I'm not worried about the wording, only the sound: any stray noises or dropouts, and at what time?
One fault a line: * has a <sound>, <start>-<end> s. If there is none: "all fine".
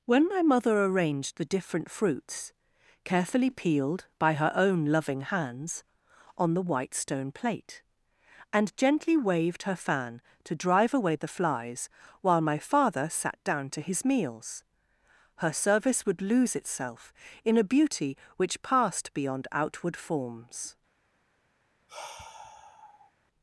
* has a sigh, 21.9-23.1 s